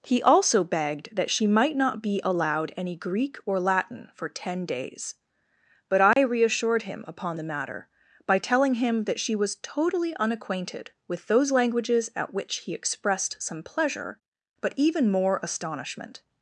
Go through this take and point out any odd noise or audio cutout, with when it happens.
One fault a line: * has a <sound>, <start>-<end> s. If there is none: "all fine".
* has a dropout, 6.1-6.2 s